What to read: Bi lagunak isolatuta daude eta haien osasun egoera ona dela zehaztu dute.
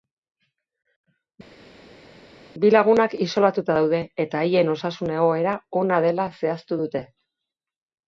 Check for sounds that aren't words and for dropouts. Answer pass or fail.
pass